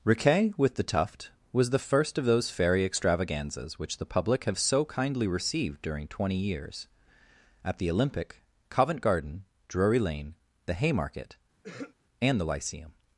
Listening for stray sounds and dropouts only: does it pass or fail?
fail